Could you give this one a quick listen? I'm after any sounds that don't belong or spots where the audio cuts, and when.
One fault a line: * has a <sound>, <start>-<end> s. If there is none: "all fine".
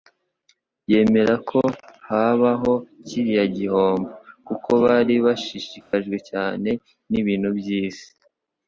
* has a dropout, 5.8-5.9 s